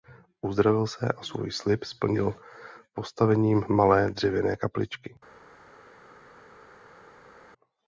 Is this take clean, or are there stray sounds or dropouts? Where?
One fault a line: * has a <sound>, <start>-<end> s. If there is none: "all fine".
all fine